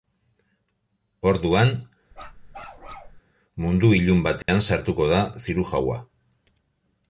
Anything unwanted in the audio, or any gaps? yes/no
yes